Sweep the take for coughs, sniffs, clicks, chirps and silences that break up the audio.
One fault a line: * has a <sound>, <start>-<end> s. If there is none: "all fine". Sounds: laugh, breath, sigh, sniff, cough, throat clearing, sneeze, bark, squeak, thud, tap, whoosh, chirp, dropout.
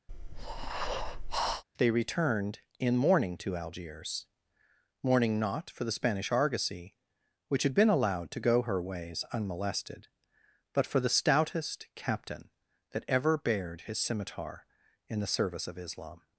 * has a breath, 0.1-1.6 s